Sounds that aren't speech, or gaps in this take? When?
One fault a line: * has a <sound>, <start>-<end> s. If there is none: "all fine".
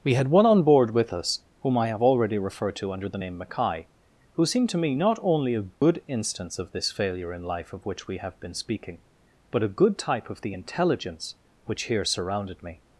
* has a dropout, 5.7-5.8 s